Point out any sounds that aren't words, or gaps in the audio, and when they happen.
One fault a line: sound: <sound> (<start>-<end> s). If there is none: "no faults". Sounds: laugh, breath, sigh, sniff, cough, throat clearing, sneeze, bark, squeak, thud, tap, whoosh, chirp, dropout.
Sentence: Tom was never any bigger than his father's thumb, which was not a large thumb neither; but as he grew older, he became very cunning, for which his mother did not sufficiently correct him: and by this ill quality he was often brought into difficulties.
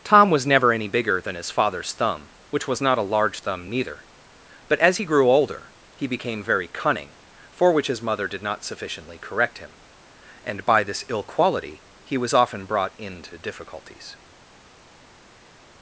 no faults